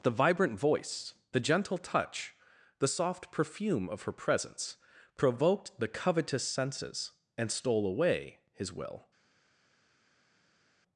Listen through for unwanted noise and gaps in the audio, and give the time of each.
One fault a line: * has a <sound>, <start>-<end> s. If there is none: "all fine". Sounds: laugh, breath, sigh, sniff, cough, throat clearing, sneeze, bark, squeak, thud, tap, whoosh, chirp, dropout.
all fine